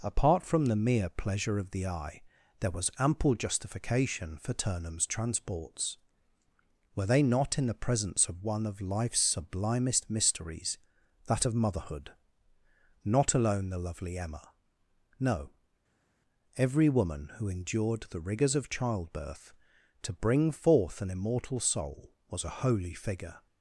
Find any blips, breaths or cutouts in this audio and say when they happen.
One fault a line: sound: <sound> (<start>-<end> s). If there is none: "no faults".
no faults